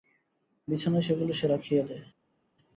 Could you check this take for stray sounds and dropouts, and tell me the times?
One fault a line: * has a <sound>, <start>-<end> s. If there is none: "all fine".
all fine